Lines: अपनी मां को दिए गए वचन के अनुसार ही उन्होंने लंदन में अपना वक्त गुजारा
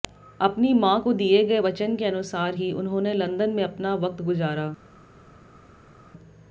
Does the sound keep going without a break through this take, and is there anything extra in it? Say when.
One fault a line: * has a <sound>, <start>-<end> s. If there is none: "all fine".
all fine